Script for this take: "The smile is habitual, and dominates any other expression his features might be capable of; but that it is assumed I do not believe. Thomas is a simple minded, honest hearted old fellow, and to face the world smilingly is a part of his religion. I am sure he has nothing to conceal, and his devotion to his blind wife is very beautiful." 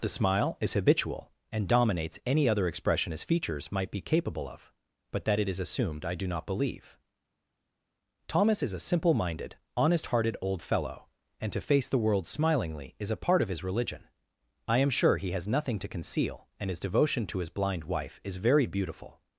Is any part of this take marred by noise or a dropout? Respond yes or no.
no